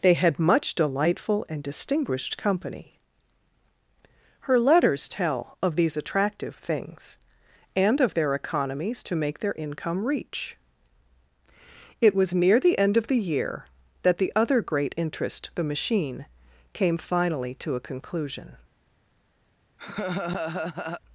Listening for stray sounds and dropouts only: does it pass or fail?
fail